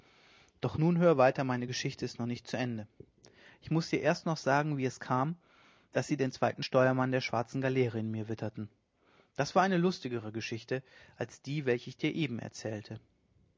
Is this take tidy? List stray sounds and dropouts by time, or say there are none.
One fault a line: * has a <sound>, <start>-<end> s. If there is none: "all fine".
all fine